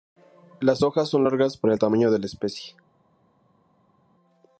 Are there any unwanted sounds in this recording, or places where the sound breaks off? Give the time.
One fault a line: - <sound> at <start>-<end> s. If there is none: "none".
none